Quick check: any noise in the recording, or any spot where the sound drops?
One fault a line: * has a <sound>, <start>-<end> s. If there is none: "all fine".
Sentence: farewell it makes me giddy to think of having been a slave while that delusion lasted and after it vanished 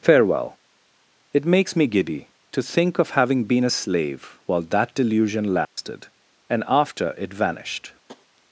* has a dropout, 5.6-5.8 s
* has a tap, 8.1-8.3 s